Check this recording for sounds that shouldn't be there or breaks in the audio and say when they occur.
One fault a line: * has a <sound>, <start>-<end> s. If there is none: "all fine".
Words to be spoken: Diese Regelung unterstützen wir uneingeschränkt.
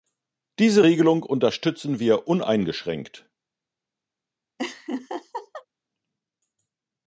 * has a laugh, 4.6-5.7 s